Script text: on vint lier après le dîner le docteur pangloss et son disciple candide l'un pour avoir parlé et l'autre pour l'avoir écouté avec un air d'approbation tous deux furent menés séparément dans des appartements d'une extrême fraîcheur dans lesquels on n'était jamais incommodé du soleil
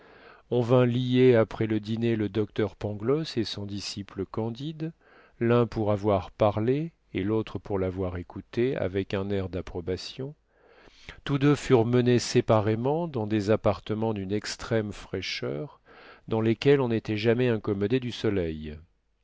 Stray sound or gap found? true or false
false